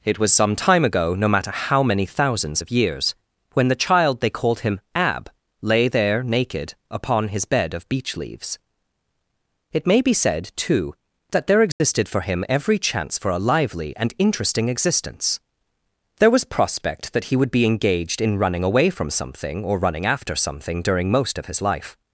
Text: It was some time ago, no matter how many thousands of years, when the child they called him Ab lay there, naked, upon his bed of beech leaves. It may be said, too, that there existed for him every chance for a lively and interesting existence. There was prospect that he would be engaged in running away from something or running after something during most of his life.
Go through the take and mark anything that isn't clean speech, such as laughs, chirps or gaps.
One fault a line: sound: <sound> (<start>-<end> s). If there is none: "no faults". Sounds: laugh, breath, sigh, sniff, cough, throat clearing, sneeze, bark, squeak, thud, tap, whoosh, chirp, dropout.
sound: dropout (11.7-11.8 s)